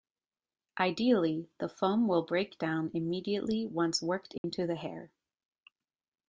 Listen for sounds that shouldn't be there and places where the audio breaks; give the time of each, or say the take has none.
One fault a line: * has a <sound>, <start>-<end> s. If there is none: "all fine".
* has a dropout, 4.4-4.4 s